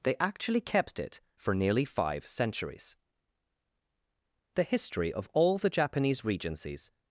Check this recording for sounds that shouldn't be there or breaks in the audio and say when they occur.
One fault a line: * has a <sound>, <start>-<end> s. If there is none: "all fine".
all fine